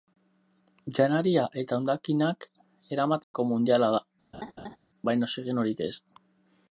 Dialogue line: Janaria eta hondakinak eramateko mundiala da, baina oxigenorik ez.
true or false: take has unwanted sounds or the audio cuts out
true